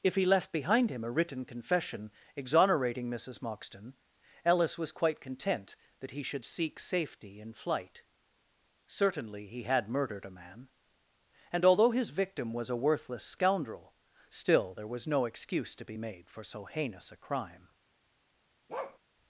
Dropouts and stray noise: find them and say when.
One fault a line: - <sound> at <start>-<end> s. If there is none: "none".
- bark at 18.7-19.0 s